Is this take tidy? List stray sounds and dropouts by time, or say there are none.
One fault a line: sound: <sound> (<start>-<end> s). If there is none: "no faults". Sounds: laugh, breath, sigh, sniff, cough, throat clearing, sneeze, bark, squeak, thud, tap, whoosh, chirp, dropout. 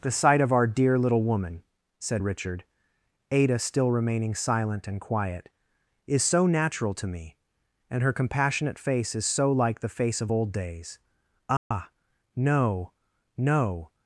sound: dropout (11.6-11.7 s)